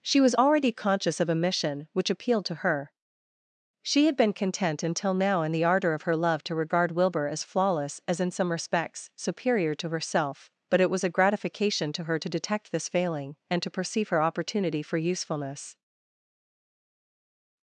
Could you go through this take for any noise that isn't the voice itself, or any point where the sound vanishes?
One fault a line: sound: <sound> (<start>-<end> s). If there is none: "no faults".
no faults